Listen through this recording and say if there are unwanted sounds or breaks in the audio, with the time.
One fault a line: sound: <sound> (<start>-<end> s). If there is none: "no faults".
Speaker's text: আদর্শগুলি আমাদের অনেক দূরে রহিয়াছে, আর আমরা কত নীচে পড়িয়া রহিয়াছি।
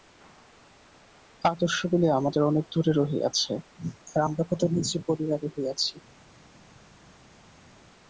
no faults